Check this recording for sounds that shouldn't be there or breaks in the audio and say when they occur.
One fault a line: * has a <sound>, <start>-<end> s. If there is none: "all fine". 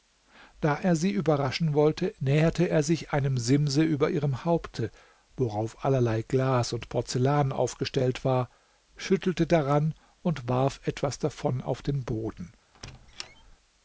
* has a squeak, 12.7-13.6 s